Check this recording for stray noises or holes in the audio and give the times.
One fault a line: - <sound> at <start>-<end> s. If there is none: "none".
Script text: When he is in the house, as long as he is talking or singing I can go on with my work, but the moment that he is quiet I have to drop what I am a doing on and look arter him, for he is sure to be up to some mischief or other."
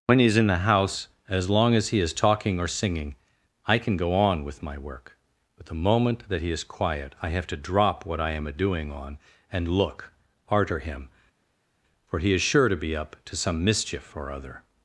none